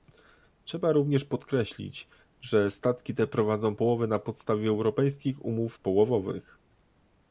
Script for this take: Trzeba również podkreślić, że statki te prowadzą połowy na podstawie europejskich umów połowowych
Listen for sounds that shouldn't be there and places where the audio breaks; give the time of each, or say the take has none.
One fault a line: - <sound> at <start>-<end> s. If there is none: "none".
none